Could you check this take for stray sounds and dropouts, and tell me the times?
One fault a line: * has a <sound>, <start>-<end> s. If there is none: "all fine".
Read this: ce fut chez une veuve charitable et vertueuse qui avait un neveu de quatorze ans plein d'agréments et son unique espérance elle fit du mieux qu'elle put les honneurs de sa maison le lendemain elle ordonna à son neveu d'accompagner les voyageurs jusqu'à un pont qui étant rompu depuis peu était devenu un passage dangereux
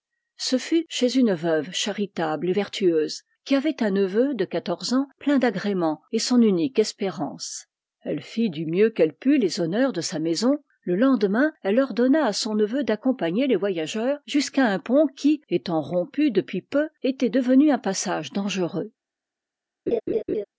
* has a laugh, 19.9-20.4 s